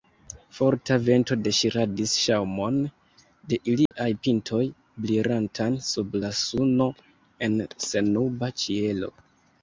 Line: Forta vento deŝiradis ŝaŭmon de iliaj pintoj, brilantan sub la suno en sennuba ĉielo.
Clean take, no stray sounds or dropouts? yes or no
no